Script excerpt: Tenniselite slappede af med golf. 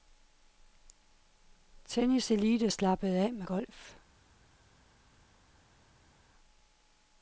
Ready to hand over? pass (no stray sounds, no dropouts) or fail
pass